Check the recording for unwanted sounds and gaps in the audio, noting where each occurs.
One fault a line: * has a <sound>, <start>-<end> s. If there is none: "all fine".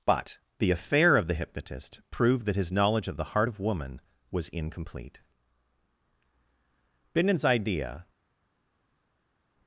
all fine